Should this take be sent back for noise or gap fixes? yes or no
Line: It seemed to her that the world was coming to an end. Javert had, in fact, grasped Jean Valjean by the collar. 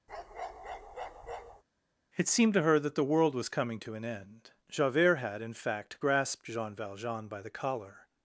yes